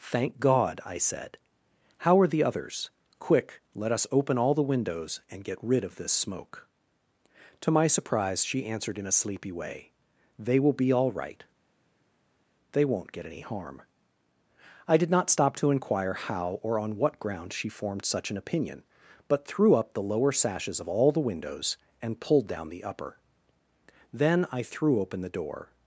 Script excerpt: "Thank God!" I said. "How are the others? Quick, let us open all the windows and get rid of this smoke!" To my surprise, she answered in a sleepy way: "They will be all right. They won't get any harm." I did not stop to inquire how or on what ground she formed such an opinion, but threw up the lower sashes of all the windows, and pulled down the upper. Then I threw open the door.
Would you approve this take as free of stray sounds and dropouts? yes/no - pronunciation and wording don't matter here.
yes